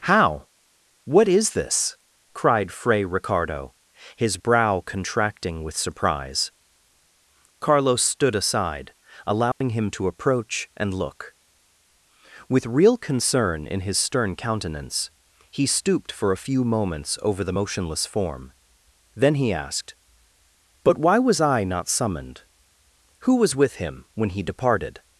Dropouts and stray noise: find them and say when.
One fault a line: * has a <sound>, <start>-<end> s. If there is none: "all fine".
* has a dropout, 9.5-9.6 s